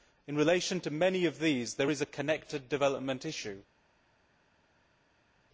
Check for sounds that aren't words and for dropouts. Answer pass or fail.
pass